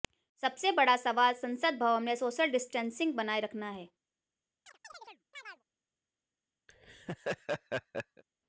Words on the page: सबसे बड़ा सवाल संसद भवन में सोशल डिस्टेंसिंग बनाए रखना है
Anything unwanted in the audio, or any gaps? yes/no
yes